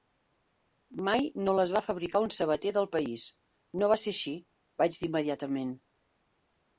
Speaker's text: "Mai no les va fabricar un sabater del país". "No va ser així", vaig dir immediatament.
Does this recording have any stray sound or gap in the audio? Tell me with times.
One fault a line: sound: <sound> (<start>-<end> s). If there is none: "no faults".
no faults